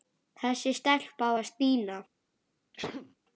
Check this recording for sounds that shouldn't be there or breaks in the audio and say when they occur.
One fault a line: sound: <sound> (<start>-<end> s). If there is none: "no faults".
sound: sneeze (2.7-3.2 s)